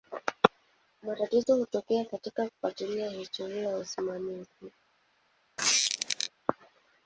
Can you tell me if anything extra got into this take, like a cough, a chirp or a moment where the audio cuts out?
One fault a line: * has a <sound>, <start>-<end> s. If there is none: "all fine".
* has a squeak, 5.6-6.3 s